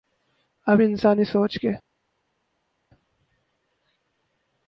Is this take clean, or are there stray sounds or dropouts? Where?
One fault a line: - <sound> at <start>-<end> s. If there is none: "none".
none